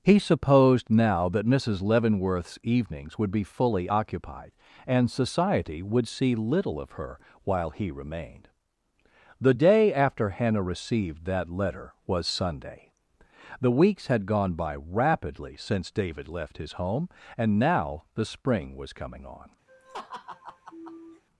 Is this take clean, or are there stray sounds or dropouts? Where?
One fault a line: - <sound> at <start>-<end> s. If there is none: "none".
- laugh at 19.7-21.2 s